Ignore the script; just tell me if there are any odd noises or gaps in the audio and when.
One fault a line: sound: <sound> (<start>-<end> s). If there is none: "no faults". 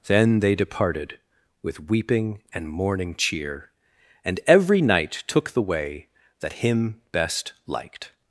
no faults